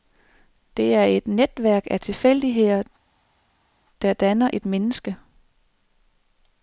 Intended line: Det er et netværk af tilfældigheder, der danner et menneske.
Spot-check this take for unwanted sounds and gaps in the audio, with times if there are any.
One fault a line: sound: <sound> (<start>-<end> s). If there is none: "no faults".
no faults